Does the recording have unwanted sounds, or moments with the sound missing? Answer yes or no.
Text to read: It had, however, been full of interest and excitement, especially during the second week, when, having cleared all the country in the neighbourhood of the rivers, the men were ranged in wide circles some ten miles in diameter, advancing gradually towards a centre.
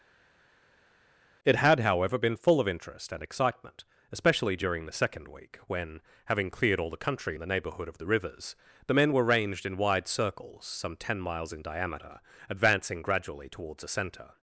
no